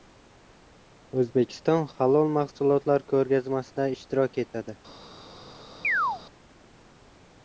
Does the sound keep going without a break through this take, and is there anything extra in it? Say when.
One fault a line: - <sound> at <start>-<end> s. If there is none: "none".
- chirp at 5.8-6.2 s